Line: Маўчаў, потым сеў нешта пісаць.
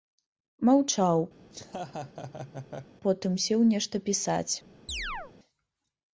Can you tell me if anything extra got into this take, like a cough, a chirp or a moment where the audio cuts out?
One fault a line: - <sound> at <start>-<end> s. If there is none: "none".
- laugh at 1.4-3.0 s
- chirp at 4.9-5.3 s